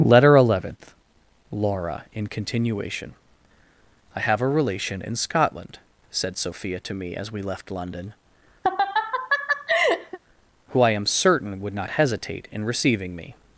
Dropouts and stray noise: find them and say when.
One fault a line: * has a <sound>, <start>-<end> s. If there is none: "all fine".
* has a laugh, 8.6-10.2 s